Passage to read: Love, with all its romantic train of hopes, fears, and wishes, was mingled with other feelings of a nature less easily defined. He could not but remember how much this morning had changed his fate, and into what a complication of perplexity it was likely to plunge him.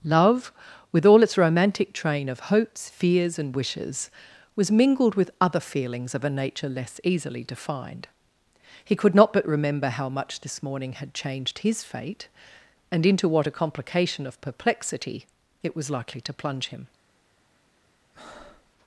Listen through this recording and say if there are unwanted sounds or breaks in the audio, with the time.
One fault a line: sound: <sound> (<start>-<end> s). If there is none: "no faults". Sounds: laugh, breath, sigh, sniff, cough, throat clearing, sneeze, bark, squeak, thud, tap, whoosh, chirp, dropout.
sound: breath (18.1-18.7 s)